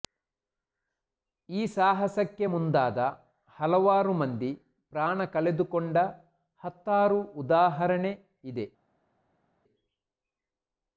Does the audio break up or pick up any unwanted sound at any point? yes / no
no